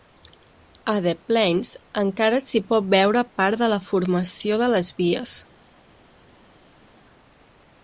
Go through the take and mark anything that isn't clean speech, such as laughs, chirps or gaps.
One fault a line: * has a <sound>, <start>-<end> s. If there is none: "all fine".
all fine